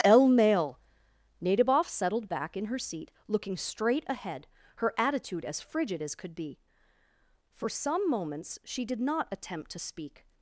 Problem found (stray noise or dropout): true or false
false